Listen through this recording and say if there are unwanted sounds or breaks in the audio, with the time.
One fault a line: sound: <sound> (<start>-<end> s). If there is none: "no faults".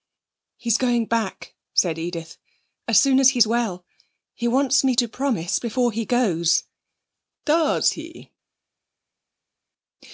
no faults